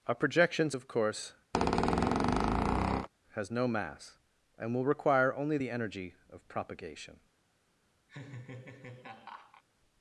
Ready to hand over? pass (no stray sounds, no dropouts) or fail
fail